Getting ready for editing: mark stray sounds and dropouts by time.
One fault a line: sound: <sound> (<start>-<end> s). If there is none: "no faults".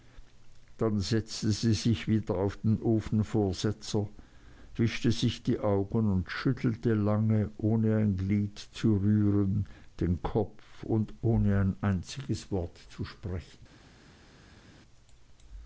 no faults